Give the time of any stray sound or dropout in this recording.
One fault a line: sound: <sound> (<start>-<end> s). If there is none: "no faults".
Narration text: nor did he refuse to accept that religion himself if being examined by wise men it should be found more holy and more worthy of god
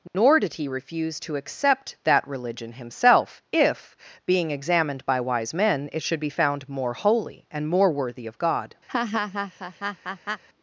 sound: dropout (0.1-0.1 s)
sound: laugh (8.9-10.4 s)